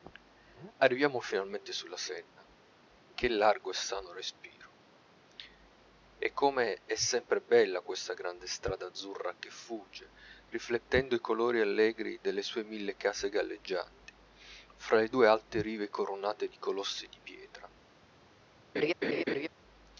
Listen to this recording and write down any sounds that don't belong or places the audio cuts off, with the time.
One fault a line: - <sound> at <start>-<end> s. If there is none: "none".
- laugh at 18.7-19.5 s